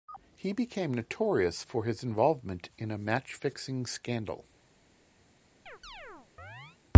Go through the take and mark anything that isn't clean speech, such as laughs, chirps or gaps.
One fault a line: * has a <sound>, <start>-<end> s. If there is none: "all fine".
* has a chirp, 5.7-6.8 s